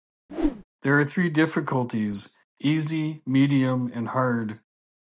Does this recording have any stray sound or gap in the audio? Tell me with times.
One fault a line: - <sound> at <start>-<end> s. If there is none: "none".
- whoosh at 0.3-0.6 s